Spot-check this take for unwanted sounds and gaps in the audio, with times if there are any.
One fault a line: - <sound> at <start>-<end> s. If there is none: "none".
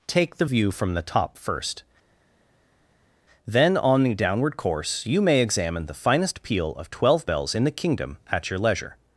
none